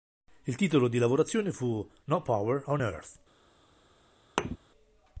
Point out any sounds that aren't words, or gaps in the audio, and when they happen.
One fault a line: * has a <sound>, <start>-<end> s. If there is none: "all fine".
* has a thud, 4.4-4.6 s